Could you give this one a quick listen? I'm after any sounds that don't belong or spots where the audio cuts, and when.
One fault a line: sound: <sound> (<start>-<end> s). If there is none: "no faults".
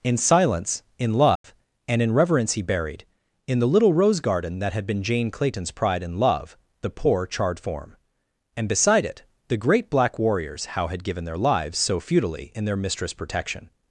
sound: dropout (1.4-1.4 s)